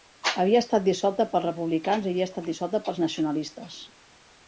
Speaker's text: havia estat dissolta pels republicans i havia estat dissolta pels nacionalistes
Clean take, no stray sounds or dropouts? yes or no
yes